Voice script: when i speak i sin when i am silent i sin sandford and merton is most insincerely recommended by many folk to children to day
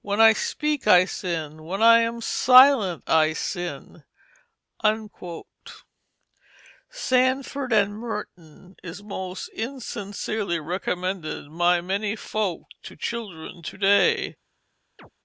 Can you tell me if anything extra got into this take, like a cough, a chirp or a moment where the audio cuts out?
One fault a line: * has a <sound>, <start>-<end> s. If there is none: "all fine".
* has a chirp, 15.0-15.1 s